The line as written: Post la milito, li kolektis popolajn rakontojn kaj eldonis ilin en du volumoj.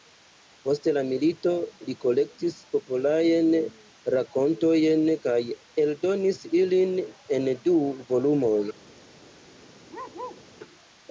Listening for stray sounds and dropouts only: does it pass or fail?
fail